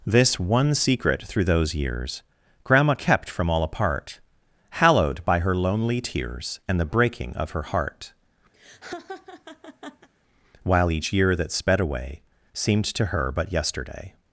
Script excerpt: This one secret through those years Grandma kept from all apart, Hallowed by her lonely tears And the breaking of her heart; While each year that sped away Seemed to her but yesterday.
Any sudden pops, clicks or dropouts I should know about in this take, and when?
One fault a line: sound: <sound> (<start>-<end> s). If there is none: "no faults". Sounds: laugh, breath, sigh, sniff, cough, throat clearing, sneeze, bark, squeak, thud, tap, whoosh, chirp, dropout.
sound: laugh (8.5-10.1 s)